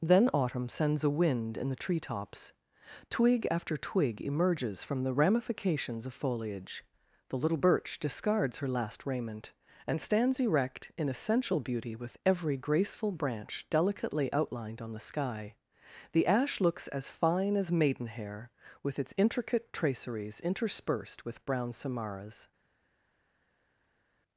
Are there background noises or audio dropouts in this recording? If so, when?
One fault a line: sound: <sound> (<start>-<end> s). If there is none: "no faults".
no faults